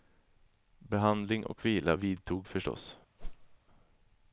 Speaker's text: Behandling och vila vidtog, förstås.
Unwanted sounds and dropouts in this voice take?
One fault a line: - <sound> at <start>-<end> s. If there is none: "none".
- whoosh at 3.2-3.6 s